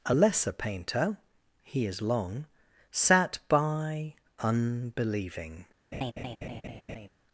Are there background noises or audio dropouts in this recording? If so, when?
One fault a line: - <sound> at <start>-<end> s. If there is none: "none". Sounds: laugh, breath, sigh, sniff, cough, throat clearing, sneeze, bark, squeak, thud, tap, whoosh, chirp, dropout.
- laugh at 5.9-7.1 s